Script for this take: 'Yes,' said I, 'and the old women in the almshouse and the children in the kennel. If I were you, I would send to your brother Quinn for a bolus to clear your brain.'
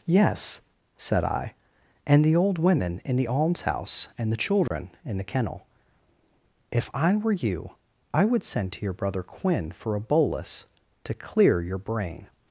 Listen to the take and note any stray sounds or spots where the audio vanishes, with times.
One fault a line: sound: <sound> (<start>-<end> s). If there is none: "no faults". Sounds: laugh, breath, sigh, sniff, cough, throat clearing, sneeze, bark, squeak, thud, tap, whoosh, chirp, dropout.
sound: dropout (4.7-4.7 s)